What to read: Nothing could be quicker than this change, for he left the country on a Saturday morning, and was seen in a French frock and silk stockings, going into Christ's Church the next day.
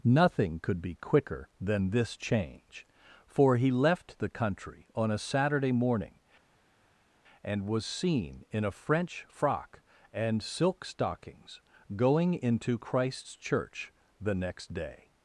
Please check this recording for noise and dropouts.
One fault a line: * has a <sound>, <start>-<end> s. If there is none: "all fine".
all fine